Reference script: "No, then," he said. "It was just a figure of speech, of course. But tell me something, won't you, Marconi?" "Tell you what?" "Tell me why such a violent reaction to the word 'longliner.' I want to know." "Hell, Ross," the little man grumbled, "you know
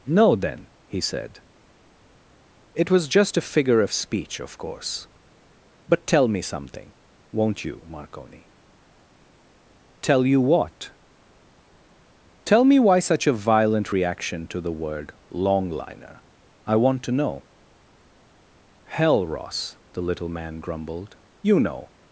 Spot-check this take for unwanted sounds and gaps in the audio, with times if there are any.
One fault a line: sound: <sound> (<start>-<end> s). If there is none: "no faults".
no faults